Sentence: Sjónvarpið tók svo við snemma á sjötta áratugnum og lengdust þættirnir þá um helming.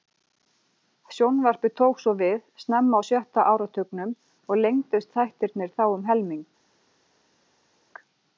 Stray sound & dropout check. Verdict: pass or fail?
pass